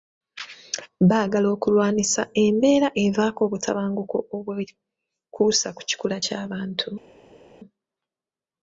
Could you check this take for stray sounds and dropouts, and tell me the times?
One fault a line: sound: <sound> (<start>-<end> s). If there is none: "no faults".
no faults